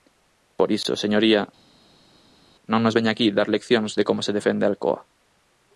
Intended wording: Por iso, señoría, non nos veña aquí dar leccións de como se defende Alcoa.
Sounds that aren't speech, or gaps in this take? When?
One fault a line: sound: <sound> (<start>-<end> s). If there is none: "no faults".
no faults